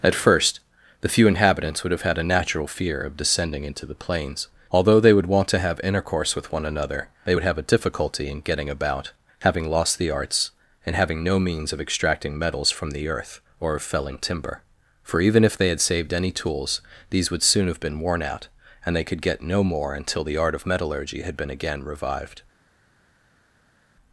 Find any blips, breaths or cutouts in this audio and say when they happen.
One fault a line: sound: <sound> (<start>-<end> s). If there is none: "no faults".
no faults